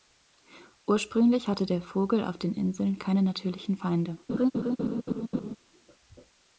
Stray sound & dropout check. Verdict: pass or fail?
fail